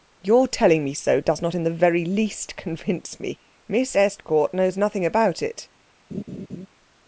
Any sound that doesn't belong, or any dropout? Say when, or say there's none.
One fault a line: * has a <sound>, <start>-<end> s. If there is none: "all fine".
* has a laugh, 6.1-6.7 s